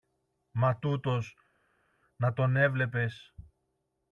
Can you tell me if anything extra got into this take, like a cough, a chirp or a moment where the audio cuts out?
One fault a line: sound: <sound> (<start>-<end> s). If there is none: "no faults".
no faults